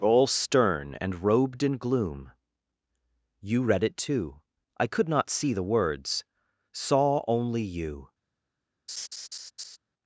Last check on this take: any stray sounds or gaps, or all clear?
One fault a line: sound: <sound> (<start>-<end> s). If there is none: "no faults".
sound: laugh (8.9-9.8 s)